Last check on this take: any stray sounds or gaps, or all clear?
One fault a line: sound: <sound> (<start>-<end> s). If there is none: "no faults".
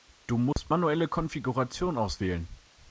sound: dropout (0.5-0.6 s)